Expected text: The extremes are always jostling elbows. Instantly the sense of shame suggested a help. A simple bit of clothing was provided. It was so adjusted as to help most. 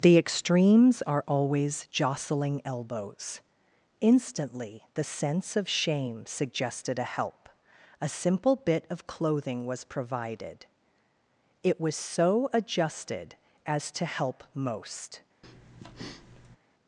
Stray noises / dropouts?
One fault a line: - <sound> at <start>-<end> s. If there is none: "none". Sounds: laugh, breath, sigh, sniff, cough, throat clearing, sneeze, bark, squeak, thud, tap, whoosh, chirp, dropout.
- breath at 15.4-16.6 s